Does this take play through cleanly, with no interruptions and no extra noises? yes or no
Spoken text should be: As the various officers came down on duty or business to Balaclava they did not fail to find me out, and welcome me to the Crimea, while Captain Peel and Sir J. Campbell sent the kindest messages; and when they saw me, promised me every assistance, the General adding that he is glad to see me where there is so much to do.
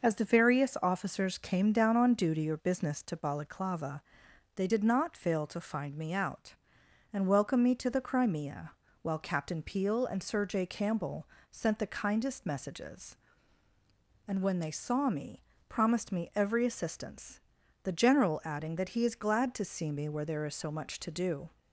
yes